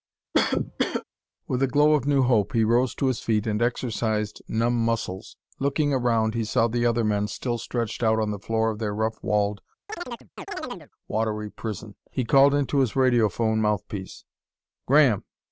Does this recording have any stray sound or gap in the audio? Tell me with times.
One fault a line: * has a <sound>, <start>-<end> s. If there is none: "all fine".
* has a cough, 0.3-1.0 s
* has a chirp, 9.9-10.9 s